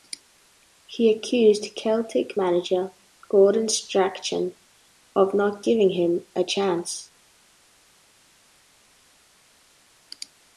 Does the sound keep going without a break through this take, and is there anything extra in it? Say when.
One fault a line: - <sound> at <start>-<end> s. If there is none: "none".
none